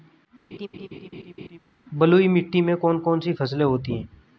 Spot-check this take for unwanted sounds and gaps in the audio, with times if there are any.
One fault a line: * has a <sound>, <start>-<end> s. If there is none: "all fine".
* has a laugh, 0.5-1.6 s